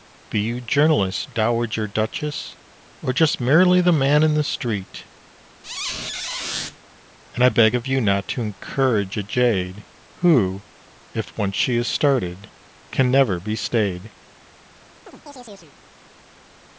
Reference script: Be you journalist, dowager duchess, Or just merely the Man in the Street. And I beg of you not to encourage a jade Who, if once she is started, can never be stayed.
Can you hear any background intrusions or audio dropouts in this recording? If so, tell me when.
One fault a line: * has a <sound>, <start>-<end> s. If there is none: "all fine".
* has a squeak, 5.6-6.8 s
* has a chirp, 15.1-15.8 s